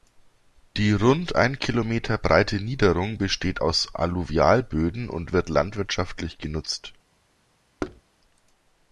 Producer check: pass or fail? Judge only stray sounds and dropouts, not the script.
fail